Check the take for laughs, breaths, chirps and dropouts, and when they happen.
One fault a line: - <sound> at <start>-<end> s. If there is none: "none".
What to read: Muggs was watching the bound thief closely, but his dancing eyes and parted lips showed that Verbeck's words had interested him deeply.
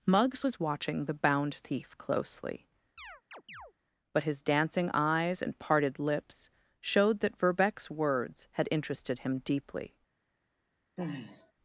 - chirp at 3.0-3.7 s
- sigh at 11.0-11.5 s